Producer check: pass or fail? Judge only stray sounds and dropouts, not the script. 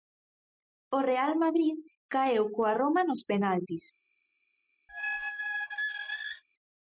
fail